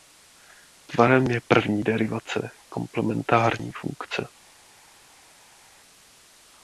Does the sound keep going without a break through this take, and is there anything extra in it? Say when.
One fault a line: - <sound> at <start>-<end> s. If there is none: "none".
none